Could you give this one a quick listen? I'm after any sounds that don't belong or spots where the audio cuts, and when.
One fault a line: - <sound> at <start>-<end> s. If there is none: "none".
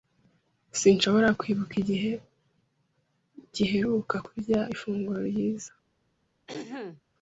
- throat clearing at 6.5-7.0 s